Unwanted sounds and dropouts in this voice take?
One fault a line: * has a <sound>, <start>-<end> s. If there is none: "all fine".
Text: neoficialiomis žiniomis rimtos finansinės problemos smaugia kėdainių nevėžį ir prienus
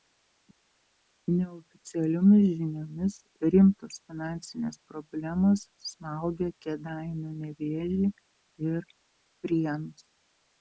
all fine